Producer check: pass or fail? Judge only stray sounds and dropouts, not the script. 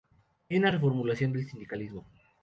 pass